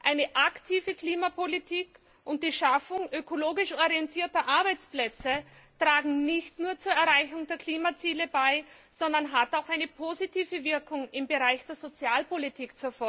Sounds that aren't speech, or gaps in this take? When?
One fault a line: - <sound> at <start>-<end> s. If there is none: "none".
none